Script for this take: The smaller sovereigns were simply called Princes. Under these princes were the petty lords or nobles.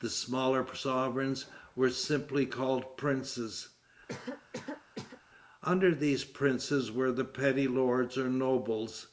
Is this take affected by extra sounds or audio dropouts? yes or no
yes